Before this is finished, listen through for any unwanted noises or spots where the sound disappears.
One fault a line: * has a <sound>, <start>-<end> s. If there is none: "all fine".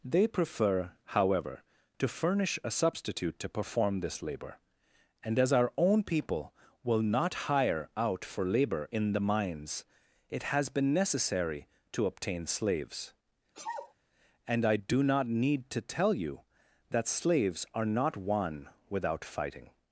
* has a sneeze, 13.5-13.9 s